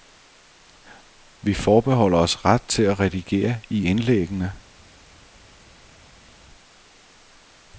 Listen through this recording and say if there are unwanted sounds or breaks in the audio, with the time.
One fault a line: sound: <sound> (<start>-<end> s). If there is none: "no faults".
no faults